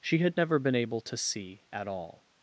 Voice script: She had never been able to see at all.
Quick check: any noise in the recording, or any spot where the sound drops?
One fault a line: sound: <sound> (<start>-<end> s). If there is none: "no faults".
no faults